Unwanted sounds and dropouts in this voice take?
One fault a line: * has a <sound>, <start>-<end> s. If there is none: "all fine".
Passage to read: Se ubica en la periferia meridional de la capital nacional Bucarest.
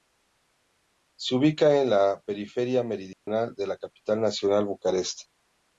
* has a dropout, 3.1-3.3 s